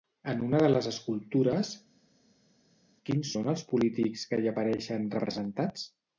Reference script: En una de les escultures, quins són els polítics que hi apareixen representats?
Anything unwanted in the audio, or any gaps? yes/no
no